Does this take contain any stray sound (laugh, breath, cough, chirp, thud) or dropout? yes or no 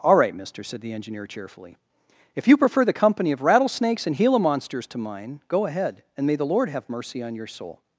no